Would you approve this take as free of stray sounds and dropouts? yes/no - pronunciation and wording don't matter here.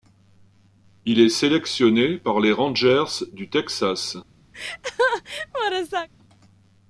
no